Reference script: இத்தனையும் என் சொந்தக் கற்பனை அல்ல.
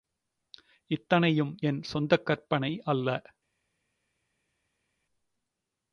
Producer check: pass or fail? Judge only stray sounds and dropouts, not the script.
pass